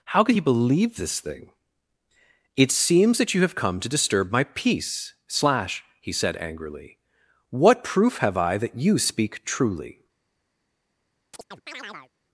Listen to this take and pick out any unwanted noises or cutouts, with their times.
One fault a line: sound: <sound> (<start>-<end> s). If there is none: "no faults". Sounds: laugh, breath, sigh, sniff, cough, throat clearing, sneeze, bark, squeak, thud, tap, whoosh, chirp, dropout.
sound: chirp (11.3-12.1 s)